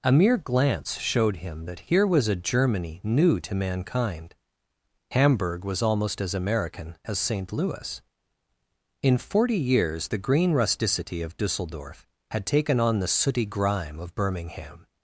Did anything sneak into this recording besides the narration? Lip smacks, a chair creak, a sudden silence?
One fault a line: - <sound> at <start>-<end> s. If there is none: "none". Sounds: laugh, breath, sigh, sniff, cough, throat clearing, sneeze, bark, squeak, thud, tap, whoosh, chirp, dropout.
none